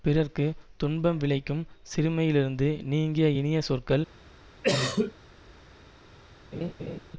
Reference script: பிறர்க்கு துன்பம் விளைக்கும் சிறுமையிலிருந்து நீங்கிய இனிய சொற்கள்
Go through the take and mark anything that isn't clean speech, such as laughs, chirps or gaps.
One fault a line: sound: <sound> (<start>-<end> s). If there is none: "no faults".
sound: cough (4.6-5.1 s)
sound: laugh (6.5-7.0 s)